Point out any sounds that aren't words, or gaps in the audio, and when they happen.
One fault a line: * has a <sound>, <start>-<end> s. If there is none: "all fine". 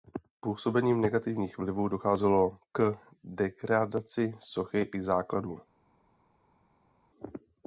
all fine